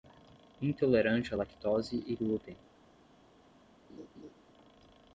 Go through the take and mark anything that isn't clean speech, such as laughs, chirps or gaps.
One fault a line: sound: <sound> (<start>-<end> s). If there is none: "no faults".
sound: laugh (3.9-4.3 s)